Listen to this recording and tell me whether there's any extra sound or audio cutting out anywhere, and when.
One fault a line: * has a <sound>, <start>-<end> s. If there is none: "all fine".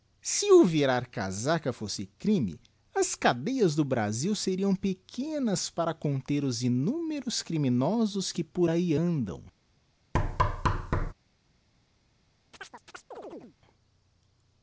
* has a thud, 10.1-11.1 s
* has a chirp, 12.5-13.6 s